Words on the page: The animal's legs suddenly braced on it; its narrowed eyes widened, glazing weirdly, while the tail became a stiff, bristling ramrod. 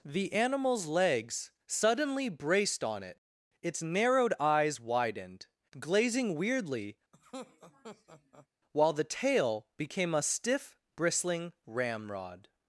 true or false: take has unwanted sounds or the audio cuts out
true